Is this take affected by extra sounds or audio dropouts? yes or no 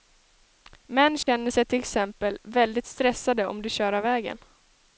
yes